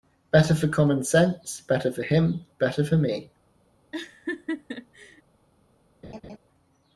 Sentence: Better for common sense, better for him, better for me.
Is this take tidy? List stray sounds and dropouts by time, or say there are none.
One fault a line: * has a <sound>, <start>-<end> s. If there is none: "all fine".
* has a laugh, 3.9-5.2 s
* has a laugh, 6.0-6.4 s